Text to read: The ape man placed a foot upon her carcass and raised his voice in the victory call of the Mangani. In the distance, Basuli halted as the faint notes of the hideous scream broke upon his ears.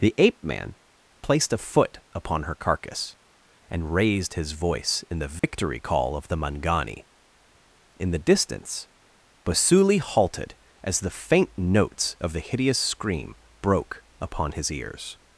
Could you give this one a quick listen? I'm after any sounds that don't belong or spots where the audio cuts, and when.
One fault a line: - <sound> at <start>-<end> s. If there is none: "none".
- dropout at 5.4-5.4 s